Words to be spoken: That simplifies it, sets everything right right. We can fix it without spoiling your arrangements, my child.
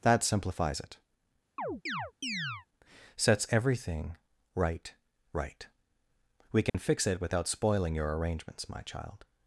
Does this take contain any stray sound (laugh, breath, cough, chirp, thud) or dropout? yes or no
yes